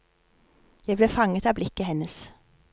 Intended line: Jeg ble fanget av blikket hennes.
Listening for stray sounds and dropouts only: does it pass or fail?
pass